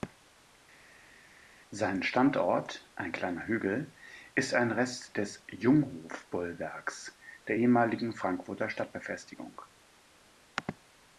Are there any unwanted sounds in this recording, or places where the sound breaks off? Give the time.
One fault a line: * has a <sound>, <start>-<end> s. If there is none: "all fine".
all fine